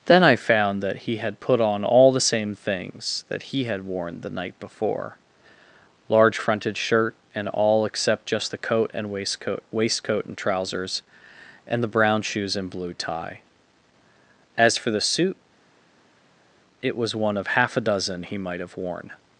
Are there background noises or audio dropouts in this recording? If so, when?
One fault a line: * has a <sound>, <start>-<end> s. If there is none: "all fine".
all fine